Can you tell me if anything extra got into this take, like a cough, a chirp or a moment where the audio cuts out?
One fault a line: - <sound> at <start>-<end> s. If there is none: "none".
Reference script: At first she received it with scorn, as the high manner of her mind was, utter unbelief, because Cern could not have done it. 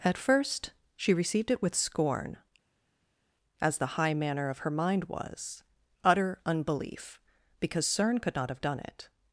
none